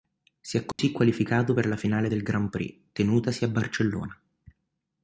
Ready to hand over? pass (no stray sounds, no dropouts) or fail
fail